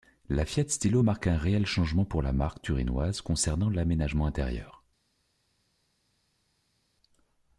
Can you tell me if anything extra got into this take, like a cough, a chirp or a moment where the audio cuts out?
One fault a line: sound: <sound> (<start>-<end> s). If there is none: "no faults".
no faults